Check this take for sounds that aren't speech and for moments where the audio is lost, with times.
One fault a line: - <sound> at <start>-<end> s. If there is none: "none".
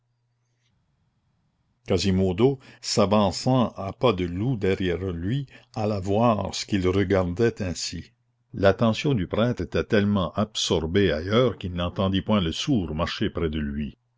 none